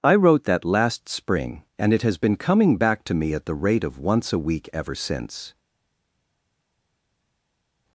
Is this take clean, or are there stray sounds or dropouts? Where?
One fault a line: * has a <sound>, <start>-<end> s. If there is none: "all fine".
all fine